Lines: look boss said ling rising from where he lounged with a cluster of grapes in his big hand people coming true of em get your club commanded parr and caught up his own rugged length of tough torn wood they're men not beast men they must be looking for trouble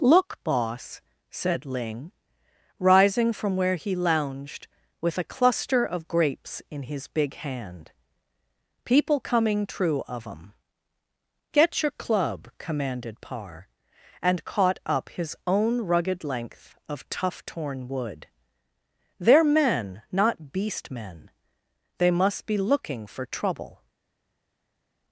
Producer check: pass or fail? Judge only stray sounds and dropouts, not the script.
pass